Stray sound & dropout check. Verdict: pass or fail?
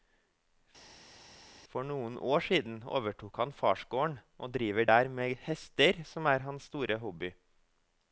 pass